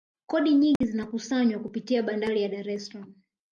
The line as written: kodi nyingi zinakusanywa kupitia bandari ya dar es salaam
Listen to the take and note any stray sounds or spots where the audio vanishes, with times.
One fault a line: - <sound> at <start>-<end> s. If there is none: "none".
- dropout at 0.8-0.8 s